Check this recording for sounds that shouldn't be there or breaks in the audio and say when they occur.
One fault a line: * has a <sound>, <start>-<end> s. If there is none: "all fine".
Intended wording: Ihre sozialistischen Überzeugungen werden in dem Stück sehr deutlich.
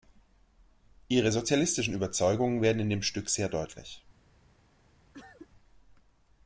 * has a cough, 5.1-5.5 s